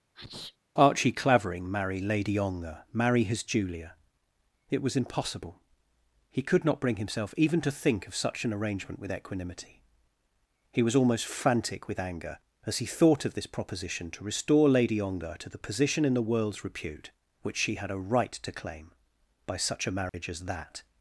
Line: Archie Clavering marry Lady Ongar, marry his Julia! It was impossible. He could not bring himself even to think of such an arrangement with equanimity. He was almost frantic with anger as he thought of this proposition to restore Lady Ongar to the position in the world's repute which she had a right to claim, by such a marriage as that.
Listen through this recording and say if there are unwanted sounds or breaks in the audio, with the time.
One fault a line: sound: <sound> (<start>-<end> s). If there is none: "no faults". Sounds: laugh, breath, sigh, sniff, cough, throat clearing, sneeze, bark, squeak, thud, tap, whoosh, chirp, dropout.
sound: sneeze (0.1-0.6 s)
sound: dropout (20.1-20.1 s)